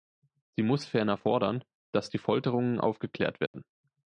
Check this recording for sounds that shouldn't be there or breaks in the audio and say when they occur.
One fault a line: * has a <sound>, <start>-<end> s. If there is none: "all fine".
* has a dropout, 3.5-3.5 s